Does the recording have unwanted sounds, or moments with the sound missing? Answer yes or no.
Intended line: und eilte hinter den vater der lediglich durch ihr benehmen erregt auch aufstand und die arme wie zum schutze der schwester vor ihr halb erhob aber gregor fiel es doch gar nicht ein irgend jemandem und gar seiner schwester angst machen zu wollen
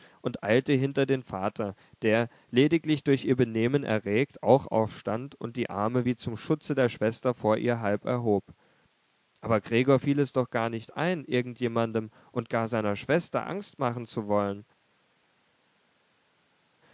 no